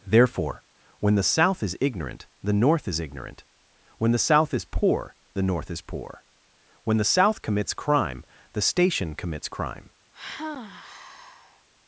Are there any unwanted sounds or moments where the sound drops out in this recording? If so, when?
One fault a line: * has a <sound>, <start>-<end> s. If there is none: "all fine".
* has a sigh, 10.1-11.7 s